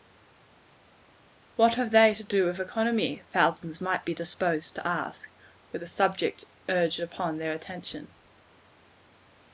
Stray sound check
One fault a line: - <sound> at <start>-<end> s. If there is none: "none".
none